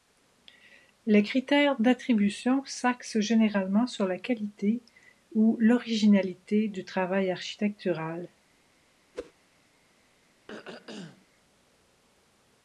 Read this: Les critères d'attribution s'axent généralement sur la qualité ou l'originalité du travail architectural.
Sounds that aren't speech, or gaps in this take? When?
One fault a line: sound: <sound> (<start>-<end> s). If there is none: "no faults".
sound: whoosh (9.1-9.3 s)
sound: throat clearing (10.5-11.3 s)